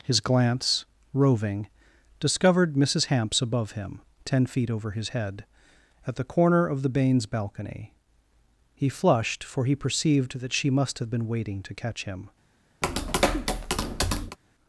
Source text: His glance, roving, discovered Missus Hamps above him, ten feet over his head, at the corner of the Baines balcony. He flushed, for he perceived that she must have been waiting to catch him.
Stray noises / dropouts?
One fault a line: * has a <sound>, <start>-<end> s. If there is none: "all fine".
* has a tap, 12.8-14.4 s